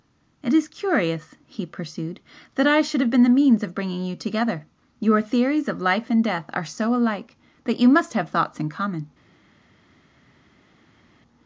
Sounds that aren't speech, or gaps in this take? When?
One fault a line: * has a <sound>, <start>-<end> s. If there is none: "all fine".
all fine